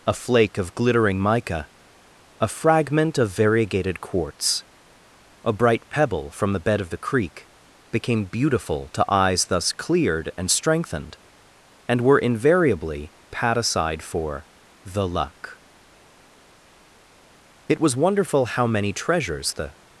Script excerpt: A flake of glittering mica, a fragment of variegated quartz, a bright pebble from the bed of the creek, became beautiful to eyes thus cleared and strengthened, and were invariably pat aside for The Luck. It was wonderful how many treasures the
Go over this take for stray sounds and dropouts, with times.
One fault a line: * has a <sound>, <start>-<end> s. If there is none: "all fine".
all fine